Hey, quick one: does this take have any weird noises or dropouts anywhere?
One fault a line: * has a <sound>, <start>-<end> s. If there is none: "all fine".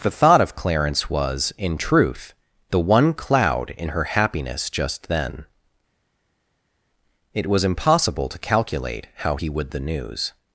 all fine